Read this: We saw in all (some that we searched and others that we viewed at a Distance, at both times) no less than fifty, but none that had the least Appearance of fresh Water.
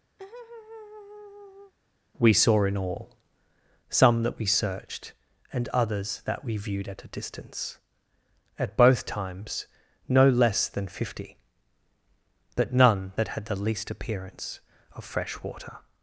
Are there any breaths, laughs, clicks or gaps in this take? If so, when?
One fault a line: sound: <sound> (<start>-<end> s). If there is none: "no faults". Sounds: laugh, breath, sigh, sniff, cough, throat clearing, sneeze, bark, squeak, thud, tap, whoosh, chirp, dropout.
sound: laugh (0.2-1.7 s)